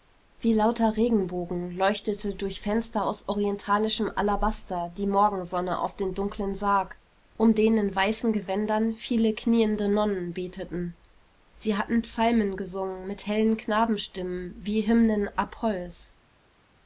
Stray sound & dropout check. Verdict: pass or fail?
pass